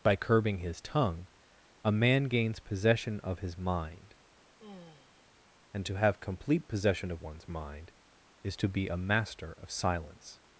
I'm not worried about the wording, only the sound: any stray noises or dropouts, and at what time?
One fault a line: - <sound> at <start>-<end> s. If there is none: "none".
- sigh at 4.6-5.3 s